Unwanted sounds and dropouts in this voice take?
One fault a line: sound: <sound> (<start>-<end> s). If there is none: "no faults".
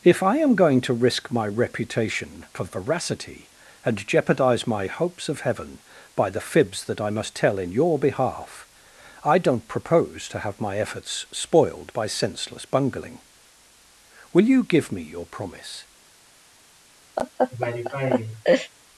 sound: laugh (17.2-18.7 s)